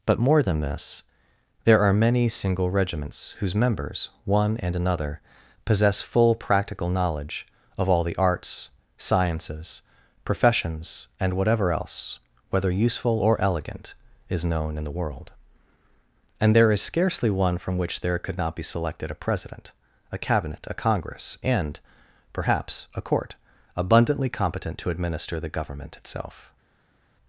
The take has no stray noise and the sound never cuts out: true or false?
true